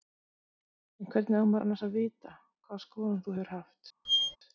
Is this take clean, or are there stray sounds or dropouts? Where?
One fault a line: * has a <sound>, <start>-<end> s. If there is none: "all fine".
* has a squeak, 4.0-4.4 s